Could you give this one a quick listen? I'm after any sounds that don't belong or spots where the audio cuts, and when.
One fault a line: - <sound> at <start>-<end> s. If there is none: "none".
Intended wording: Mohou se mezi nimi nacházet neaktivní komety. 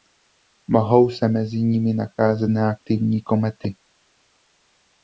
none